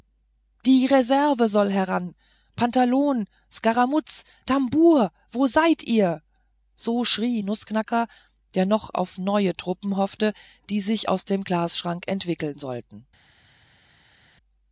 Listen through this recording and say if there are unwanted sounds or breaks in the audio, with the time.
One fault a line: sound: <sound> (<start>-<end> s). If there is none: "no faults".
no faults